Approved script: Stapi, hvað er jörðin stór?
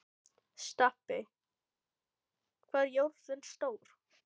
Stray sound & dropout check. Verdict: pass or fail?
pass